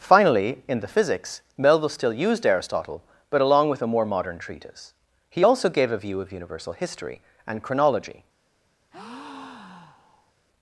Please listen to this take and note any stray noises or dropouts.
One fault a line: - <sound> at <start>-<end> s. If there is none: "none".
- breath at 8.9-10.3 s